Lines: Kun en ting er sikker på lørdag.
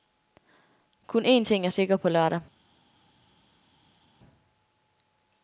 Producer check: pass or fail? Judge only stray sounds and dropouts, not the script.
pass